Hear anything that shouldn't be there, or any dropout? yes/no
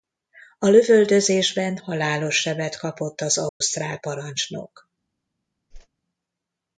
yes